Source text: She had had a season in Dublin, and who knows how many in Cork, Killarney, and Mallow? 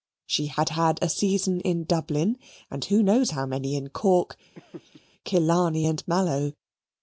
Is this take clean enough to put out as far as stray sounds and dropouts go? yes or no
no